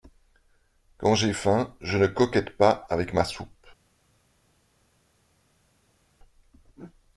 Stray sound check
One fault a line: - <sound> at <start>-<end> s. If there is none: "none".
none